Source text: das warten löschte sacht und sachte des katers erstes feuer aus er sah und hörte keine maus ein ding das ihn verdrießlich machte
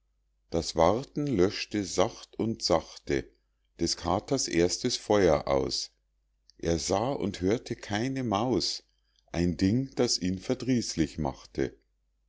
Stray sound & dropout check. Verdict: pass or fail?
pass